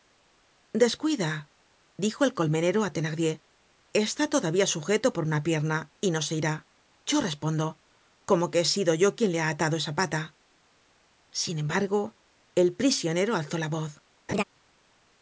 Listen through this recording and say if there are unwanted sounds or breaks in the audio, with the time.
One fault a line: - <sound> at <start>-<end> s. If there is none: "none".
- laugh at 14.3-14.4 s